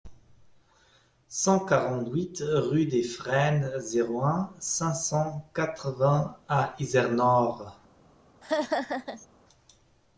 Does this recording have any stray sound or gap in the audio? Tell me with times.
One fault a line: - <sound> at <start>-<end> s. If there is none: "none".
- laugh at 8.4-9.3 s